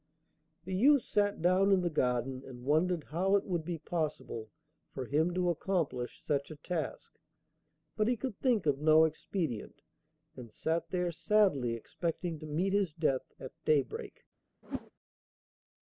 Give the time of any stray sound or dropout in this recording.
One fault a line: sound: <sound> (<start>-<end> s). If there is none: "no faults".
sound: whoosh (14.6-14.9 s)